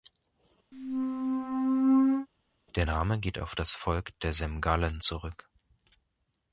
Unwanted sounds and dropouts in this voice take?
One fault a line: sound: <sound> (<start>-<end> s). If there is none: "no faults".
sound: squeak (0.7-2.3 s)